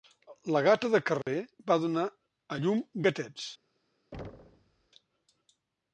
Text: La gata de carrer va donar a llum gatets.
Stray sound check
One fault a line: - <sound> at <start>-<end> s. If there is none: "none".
- dropout at 1.2-1.3 s
- thud at 4.1-4.9 s